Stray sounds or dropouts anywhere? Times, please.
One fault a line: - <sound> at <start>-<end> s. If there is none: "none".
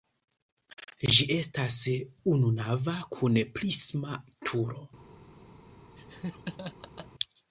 - laugh at 6.0-7.1 s